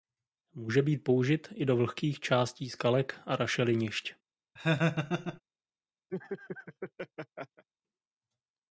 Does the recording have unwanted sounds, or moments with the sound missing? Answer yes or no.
yes